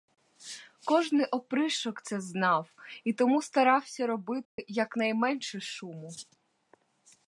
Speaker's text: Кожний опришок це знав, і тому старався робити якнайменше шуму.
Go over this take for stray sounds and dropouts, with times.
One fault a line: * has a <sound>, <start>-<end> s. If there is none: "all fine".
* has a dropout, 4.4-4.6 s